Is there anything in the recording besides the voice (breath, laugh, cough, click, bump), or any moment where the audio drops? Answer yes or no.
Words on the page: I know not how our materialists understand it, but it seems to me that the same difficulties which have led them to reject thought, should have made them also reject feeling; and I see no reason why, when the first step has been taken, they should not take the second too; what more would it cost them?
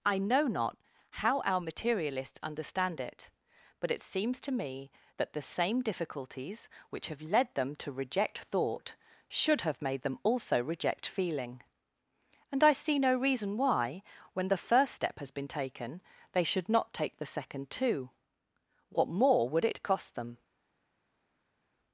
no